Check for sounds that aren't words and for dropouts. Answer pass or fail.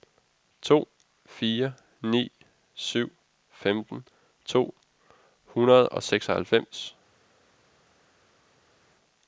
pass